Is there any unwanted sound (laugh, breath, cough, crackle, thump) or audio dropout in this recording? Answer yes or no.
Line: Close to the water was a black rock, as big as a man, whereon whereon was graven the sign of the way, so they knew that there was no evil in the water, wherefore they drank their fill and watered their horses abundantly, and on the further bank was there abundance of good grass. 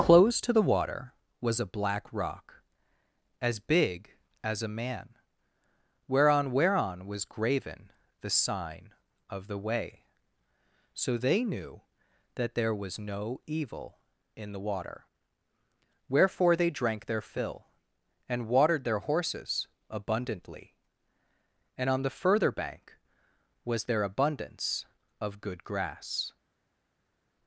no